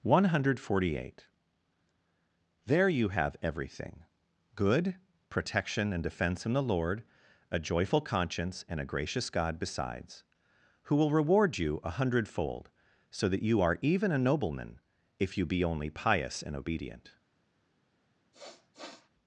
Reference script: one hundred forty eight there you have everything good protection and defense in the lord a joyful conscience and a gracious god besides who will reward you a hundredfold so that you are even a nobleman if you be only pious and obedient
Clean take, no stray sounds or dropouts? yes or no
no